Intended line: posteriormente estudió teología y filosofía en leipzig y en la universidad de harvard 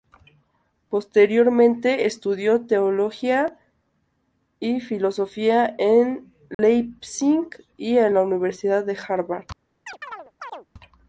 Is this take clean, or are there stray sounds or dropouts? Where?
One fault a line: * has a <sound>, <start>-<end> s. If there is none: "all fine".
* has a dropout, 6.5-6.6 s
* has a chirp, 9.9-10.7 s